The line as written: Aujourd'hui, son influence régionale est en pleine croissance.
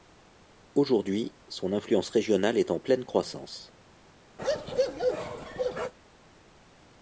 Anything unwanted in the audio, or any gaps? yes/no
yes